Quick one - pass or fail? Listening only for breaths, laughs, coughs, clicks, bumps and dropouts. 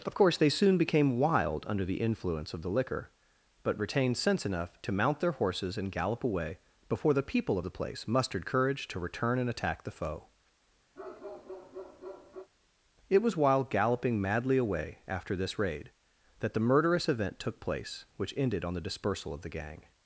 fail